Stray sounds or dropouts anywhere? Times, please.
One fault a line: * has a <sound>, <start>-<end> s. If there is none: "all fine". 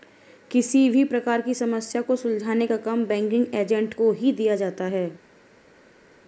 all fine